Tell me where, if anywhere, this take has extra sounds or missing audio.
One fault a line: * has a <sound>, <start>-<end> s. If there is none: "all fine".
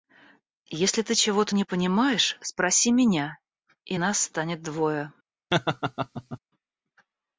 * has a laugh, 5.5-6.4 s